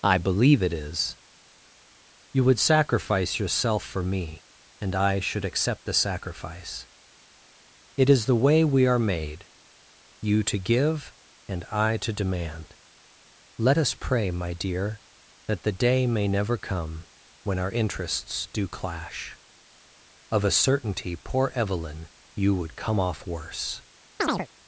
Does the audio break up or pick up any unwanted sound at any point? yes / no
yes